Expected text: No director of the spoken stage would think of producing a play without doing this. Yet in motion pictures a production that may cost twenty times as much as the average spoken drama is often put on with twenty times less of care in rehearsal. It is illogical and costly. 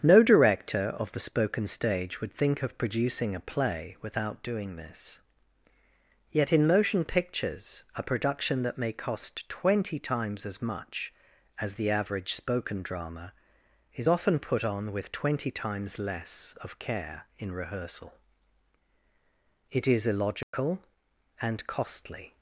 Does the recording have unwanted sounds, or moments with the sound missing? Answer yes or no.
yes